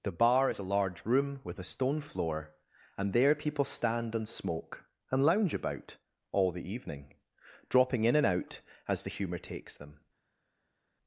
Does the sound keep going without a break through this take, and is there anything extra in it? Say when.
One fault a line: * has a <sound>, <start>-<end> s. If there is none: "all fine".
all fine